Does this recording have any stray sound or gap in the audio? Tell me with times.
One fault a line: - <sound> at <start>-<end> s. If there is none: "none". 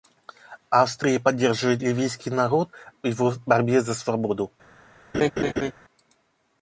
- laugh at 5.1-5.7 s